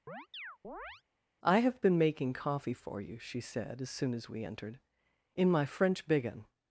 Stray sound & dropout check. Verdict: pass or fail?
fail